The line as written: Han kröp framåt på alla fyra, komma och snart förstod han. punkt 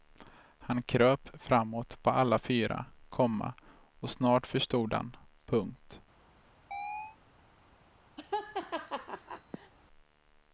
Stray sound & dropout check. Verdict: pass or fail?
fail